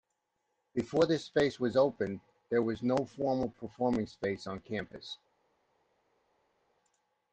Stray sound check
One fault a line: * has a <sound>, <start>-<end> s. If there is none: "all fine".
all fine